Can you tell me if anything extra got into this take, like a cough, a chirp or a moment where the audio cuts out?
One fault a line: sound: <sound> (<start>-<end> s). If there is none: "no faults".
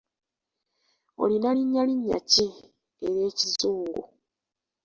no faults